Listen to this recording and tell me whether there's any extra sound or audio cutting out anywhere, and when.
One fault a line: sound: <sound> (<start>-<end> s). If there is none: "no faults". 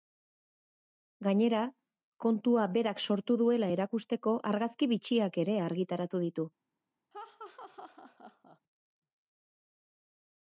sound: laugh (7.1-8.6 s)